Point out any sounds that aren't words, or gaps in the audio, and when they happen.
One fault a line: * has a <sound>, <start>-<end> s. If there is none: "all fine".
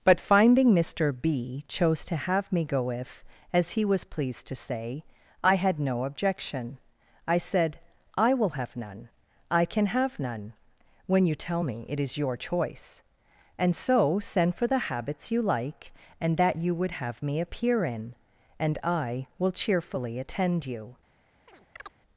* has a chirp, 21.5-22.0 s